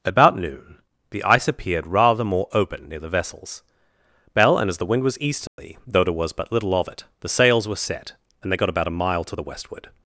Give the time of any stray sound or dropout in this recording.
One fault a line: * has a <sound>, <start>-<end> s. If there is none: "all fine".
* has a dropout, 5.5-5.6 s